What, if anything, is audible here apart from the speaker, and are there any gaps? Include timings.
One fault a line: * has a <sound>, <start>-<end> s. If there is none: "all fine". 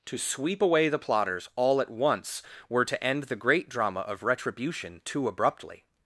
all fine